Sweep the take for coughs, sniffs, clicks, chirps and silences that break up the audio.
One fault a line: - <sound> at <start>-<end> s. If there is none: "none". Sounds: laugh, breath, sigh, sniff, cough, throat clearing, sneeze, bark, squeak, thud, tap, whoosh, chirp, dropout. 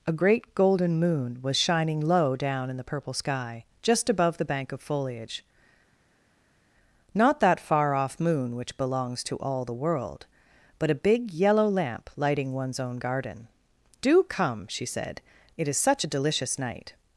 none